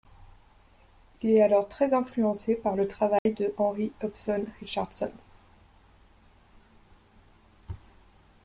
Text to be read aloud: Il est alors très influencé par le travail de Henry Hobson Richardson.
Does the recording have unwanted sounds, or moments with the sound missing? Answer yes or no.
yes